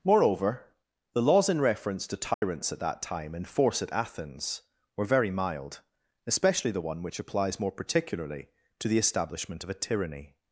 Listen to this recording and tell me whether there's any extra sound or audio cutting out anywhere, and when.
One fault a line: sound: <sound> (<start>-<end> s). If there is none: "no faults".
sound: dropout (2.3-2.4 s)